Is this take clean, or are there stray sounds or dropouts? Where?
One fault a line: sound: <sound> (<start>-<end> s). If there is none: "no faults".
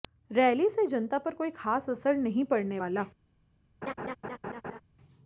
sound: laugh (3.8-4.8 s)